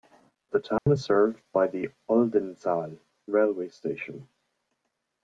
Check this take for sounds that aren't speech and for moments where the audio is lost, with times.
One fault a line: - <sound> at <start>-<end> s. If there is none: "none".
- dropout at 0.8-0.9 s